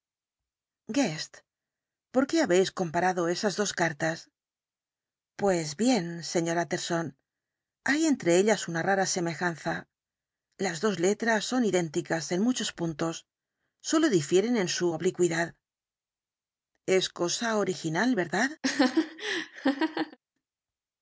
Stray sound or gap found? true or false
true